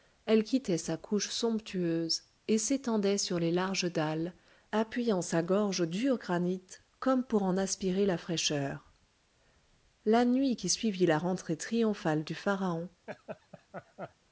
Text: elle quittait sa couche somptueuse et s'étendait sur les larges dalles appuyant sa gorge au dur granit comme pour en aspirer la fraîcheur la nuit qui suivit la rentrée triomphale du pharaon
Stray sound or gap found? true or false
true